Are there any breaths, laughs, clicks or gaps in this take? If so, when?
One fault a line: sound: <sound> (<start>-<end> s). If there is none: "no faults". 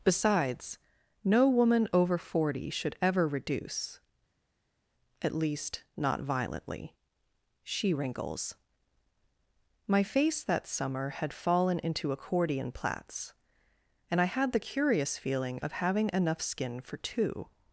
no faults